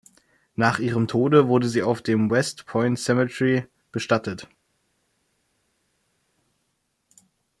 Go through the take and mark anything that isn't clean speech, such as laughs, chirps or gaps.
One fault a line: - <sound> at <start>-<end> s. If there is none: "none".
none